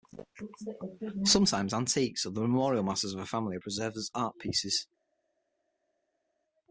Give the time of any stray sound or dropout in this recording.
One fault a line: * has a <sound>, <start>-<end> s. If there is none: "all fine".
all fine